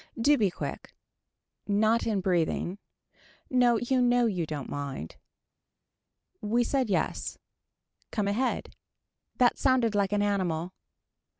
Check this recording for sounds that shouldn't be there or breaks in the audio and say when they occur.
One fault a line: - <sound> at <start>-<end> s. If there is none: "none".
none